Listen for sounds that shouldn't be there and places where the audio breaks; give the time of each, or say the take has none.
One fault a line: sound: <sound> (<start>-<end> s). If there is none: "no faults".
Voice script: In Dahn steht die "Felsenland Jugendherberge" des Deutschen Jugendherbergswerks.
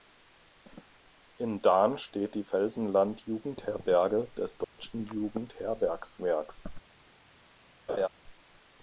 sound: dropout (4.6-4.8 s)
sound: laugh (7.9-8.1 s)